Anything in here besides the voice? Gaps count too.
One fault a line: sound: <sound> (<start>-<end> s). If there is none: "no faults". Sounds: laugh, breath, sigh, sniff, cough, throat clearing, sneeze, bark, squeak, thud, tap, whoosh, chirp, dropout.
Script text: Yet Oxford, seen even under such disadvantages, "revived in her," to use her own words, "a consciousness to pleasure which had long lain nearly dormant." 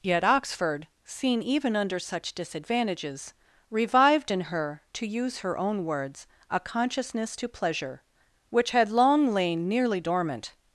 no faults